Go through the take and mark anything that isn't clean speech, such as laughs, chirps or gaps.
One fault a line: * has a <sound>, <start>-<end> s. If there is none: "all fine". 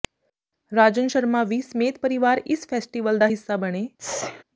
* has a sneeze, 4.0-4.4 s